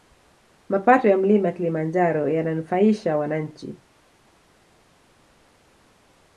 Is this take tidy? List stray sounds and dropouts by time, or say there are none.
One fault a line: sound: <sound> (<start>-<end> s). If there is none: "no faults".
no faults